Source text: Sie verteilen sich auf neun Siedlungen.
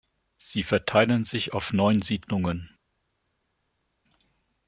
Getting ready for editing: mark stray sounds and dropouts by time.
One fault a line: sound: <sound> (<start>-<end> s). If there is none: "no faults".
no faults